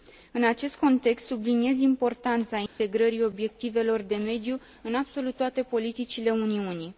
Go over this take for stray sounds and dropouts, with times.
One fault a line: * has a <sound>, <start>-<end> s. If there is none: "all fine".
* has a dropout, 2.7-2.8 s